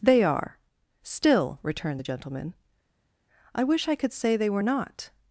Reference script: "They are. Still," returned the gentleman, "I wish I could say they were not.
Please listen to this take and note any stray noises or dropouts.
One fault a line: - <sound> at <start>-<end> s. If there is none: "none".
none